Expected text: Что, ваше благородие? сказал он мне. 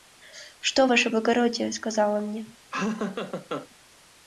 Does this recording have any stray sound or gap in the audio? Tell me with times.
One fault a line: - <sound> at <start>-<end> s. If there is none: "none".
- laugh at 2.7-3.7 s